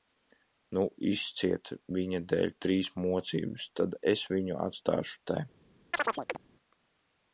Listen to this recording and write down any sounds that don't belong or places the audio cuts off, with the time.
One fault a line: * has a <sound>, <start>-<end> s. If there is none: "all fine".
* has a chirp, 5.9-6.4 s